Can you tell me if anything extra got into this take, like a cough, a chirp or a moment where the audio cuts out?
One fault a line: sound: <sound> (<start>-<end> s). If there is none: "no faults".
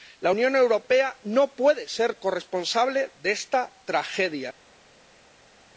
no faults